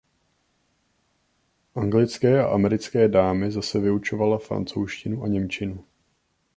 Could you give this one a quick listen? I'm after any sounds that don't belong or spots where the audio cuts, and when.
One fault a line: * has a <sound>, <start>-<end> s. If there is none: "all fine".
all fine